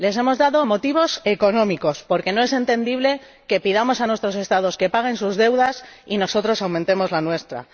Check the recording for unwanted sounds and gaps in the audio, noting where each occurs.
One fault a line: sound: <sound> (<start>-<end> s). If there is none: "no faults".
no faults